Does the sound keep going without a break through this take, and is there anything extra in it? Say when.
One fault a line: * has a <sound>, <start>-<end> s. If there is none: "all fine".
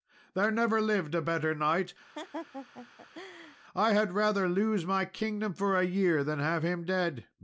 * has a laugh, 2.1-3.6 s